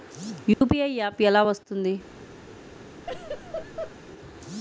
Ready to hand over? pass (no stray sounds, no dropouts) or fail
fail